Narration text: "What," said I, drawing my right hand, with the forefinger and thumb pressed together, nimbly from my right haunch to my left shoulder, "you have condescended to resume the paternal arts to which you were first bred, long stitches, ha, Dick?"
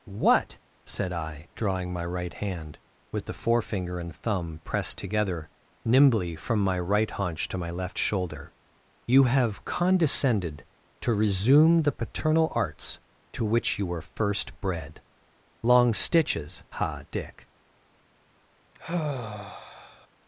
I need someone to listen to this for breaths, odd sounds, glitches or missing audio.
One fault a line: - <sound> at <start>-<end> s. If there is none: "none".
- sigh at 18.7-20.1 s